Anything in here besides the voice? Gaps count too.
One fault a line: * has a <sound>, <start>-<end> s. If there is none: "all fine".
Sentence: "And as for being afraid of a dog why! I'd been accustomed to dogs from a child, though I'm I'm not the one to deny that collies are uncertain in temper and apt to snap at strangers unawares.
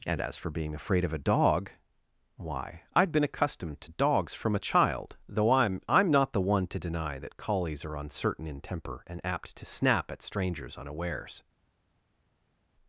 all fine